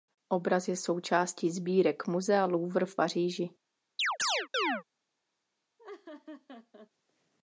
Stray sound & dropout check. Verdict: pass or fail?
fail